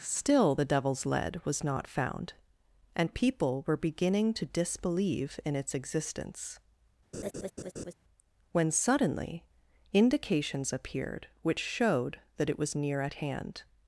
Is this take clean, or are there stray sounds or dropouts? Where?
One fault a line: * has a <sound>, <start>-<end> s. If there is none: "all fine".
* has a laugh, 7.1-7.9 s